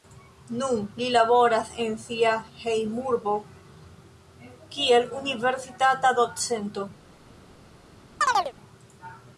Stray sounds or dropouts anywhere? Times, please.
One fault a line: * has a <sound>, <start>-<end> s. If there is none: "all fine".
* has a chirp, 8.2-8.5 s